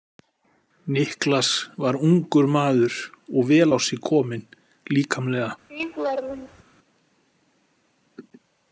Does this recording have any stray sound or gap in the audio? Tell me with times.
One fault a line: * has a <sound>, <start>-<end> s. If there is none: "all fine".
* has a laugh, 5.7-6.6 s